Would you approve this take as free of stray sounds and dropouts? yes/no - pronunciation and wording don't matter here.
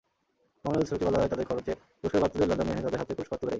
yes